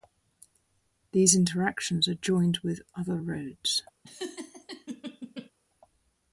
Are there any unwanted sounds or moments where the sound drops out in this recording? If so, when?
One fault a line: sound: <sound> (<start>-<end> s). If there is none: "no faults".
sound: laugh (4.0-5.5 s)